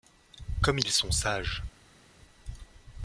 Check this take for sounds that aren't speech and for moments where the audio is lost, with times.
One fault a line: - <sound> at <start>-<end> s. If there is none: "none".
none